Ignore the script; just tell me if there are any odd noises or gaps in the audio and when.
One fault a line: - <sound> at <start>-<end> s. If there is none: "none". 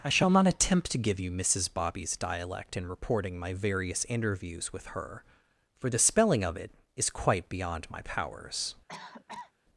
- cough at 8.9-9.5 s